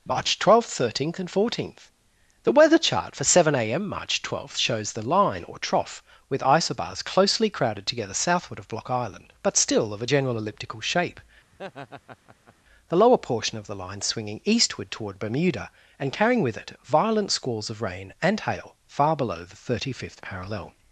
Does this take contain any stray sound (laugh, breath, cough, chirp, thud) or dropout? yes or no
yes